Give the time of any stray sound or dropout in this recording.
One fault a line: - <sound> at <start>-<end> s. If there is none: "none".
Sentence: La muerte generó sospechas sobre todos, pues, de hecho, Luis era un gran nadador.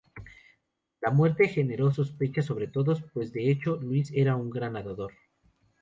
none